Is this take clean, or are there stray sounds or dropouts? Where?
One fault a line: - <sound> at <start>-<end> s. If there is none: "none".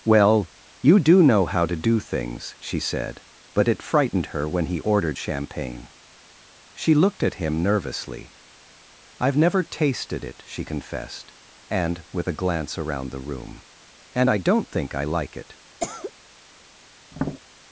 - cough at 15.8-16.1 s
- tap at 17.1-17.4 s